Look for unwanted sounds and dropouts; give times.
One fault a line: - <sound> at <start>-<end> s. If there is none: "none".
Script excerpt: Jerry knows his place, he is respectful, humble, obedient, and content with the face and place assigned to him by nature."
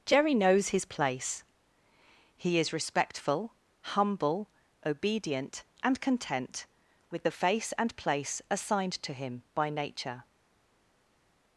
none